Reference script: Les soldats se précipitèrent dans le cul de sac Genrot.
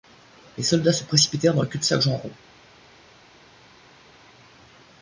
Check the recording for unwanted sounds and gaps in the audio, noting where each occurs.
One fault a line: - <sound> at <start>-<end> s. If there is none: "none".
none